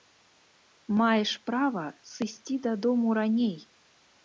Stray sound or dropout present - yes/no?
no